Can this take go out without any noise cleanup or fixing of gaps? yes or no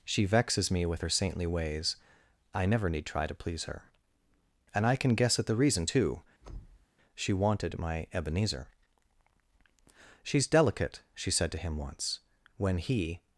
no